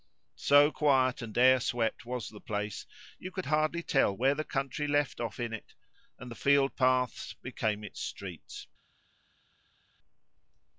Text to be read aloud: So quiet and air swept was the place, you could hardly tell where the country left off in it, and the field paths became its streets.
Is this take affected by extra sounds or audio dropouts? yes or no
no